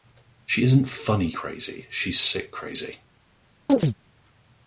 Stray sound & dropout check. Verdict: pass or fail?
fail